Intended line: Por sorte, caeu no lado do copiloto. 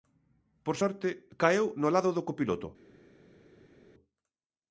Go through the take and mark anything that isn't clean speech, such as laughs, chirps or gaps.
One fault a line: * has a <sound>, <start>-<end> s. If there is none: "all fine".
all fine